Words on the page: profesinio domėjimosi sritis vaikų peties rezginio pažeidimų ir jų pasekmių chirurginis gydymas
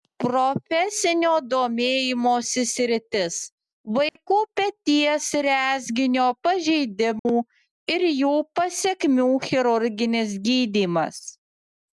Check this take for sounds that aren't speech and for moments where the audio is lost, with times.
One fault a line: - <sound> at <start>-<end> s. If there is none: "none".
- dropout at 4.1-4.2 s
- dropout at 7.2-7.3 s